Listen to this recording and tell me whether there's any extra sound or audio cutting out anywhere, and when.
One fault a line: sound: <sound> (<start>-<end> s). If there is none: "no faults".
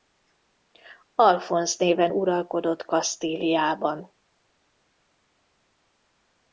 no faults